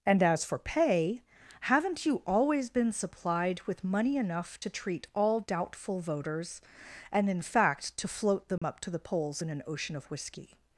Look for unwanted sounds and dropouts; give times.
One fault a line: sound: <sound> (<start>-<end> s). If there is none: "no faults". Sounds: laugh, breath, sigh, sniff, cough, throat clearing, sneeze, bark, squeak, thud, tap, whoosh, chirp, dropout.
sound: dropout (8.6-8.6 s)